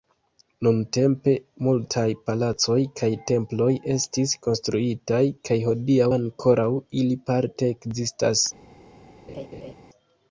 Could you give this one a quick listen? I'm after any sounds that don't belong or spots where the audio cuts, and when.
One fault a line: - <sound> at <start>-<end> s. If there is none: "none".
- laugh at 9.3-9.7 s